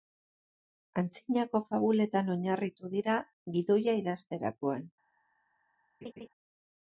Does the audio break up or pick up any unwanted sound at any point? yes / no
yes